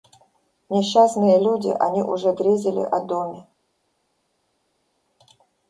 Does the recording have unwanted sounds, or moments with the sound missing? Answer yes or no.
no